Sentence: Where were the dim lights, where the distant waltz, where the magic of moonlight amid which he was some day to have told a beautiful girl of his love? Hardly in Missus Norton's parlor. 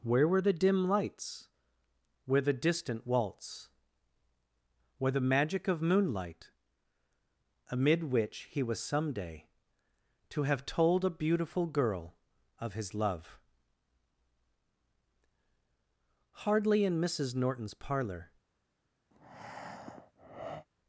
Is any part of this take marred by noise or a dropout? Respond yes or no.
yes